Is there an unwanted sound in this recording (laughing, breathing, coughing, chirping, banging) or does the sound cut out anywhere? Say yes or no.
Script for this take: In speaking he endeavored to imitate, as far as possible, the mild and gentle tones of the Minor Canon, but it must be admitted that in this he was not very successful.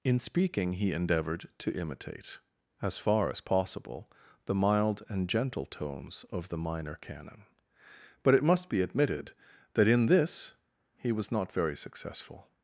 no